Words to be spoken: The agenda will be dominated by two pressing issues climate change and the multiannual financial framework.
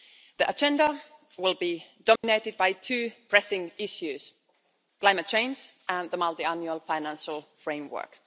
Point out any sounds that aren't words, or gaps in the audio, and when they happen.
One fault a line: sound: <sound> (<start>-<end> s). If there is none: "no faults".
sound: dropout (2.2-2.2 s)